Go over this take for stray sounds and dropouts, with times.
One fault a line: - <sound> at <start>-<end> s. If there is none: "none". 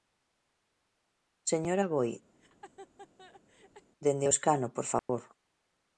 - laugh at 2.3-3.9 s
- dropout at 5.0-5.1 s